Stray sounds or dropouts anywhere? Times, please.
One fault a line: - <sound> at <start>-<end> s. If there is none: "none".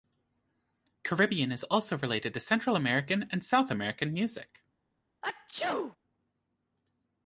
- sneeze at 5.2-6.0 s